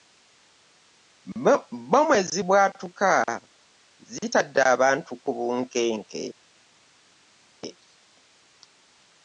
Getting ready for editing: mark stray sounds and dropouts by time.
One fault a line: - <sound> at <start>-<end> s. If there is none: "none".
none